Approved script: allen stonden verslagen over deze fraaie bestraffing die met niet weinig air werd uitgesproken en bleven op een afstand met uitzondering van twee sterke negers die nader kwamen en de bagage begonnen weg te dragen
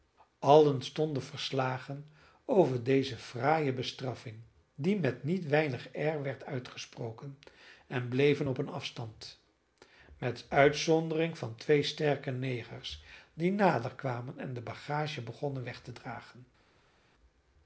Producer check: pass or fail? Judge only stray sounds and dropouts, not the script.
pass